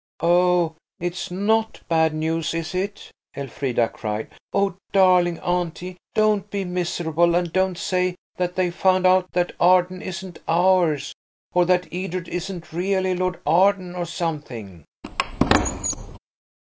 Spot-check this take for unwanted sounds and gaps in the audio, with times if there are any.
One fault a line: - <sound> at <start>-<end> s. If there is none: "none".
- squeak at 15.0-16.2 s